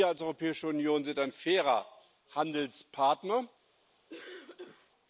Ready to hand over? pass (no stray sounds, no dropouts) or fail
fail